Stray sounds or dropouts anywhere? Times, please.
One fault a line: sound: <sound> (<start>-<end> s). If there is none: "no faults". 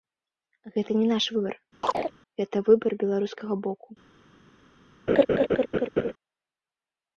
sound: chirp (1.8-2.1 s)
sound: laugh (5.1-6.1 s)